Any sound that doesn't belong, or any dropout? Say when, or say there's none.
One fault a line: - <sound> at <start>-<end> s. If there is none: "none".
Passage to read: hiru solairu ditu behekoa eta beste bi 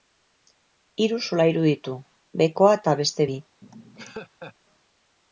- laugh at 3.6-4.5 s